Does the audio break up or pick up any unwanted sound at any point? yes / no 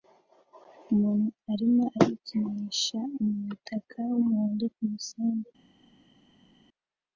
no